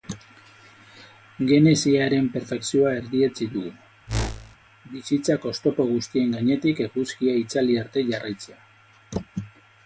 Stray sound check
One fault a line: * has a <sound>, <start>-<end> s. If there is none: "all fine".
* has a whoosh, 4.1-4.6 s